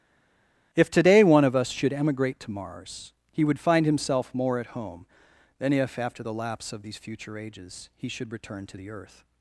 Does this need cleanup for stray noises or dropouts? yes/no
no